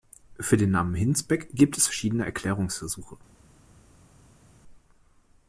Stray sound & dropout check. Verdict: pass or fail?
pass